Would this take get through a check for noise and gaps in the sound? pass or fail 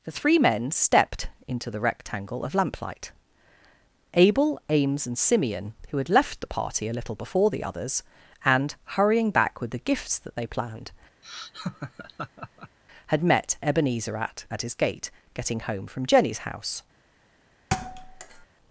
fail